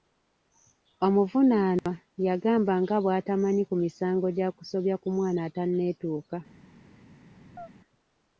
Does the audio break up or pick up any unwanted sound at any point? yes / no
yes